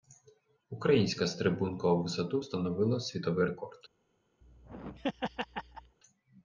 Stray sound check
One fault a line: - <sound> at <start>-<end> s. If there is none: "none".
- laugh at 4.4-6.0 s